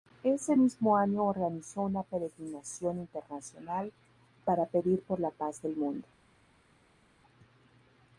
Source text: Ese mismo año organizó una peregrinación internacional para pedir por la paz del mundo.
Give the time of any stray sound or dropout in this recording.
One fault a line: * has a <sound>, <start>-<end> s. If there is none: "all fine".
all fine